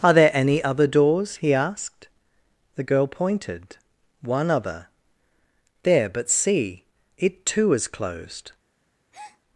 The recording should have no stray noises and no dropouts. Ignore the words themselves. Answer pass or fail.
fail